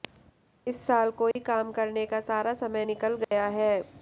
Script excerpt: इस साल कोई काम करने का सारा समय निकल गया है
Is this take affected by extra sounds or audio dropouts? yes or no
yes